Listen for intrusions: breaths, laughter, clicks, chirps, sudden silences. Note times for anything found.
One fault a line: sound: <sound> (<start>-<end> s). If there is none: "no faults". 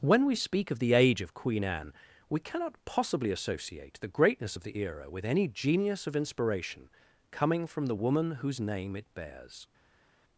no faults